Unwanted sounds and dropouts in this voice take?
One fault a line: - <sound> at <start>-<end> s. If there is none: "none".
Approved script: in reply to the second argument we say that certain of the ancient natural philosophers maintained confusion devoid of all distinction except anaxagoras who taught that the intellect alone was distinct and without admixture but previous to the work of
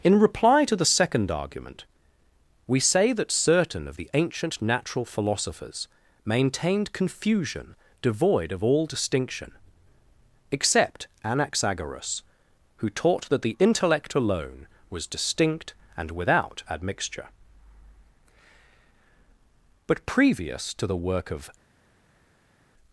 none